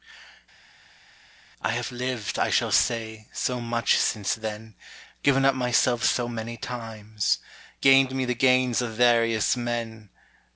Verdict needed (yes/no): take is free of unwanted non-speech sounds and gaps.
yes